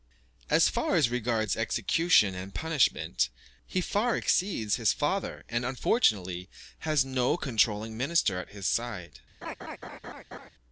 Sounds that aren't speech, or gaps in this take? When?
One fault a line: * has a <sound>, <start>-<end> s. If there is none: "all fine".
* has a laugh, 9.4-10.5 s